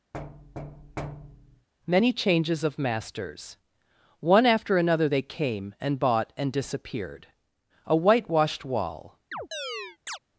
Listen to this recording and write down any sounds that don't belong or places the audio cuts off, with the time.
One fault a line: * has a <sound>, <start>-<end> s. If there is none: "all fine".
* has a thud, 0.1-1.7 s
* has a chirp, 9.3-10.2 s